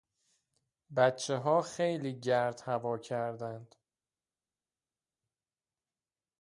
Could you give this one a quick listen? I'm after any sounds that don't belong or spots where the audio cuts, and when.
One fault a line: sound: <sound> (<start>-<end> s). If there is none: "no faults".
no faults